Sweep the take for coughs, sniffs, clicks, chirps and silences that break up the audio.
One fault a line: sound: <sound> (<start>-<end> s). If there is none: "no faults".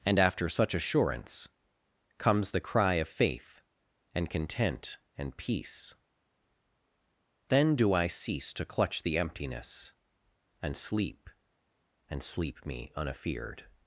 no faults